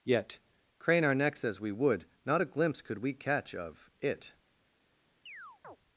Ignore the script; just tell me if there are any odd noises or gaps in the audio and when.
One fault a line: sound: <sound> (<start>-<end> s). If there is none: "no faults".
sound: chirp (5.3-5.8 s)